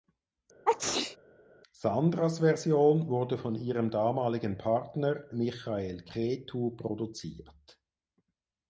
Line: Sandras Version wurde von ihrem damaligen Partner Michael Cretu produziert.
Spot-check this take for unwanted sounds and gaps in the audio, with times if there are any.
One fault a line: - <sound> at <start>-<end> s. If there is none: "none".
- sneeze at 0.7-1.2 s